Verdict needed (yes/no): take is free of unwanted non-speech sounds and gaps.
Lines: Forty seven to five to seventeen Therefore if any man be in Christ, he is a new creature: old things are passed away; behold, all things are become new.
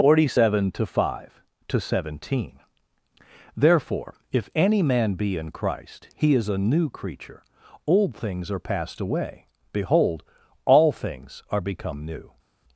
yes